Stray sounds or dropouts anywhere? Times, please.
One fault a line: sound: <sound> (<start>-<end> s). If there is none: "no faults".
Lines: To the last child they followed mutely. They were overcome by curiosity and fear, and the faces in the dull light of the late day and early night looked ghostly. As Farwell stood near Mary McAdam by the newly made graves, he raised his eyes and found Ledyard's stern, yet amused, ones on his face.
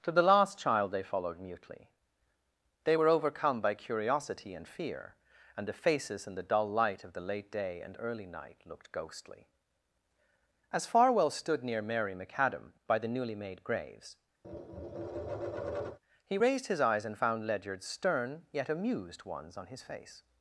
sound: tap (14.4-16.0 s)